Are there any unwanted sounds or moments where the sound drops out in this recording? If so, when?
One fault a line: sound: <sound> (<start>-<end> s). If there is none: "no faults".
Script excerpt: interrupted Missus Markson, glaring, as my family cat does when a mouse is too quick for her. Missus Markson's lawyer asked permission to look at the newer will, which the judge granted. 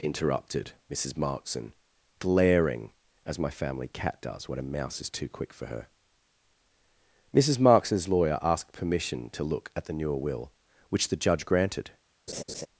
sound: laugh (12.3-12.7 s)